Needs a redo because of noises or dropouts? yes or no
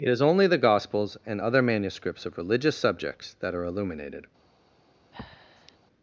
yes